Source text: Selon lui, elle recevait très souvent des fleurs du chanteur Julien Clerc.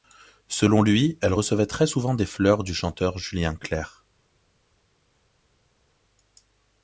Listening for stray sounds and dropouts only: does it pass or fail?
pass